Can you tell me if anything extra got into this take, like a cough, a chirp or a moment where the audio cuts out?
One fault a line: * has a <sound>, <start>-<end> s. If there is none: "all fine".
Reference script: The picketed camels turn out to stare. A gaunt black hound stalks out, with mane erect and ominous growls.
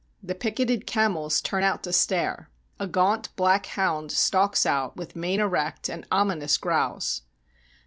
all fine